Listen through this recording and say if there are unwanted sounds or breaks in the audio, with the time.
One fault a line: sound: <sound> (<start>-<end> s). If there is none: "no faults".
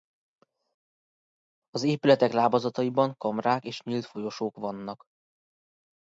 no faults